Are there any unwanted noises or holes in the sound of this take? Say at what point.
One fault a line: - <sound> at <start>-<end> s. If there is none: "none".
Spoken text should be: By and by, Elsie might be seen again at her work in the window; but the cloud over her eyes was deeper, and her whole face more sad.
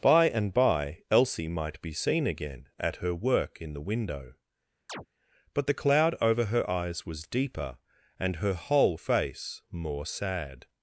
- chirp at 4.9-5.1 s